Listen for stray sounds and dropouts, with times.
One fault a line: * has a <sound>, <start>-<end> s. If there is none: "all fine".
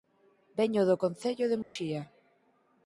* has a dropout, 1.6-1.8 s